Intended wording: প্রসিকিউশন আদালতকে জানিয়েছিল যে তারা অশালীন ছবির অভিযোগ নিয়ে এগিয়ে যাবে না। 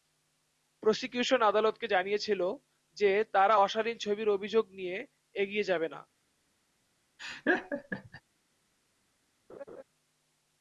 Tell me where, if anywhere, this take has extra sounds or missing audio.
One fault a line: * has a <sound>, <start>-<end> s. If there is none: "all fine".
* has a laugh, 7.2-8.2 s
* has a laugh, 9.5-9.8 s